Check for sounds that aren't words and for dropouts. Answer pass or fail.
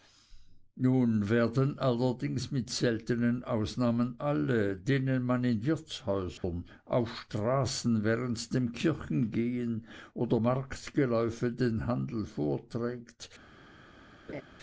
fail